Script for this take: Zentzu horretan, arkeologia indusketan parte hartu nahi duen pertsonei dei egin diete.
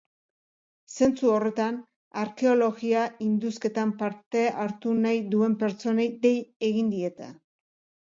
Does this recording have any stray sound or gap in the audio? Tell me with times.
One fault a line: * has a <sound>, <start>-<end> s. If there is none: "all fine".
all fine